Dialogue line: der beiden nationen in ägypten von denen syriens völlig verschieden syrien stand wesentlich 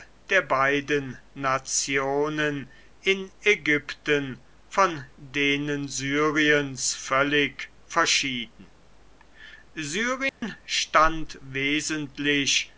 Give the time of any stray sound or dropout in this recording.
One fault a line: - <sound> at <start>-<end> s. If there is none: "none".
- dropout at 10.3-10.4 s